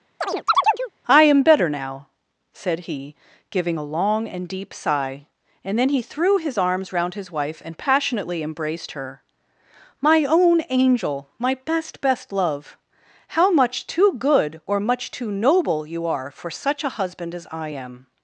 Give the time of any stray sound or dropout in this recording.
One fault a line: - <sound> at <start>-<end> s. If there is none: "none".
- chirp at 0.2-0.9 s